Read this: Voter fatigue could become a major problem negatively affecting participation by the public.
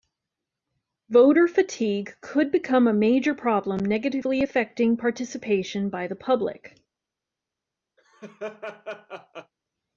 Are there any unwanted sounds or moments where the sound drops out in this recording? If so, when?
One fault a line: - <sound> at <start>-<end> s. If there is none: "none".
- laugh at 8.0-9.5 s